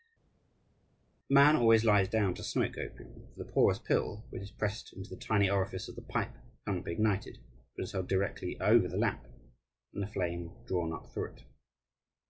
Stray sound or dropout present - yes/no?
no